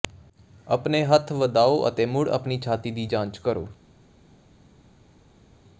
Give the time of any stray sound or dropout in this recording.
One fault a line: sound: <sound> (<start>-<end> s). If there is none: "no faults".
no faults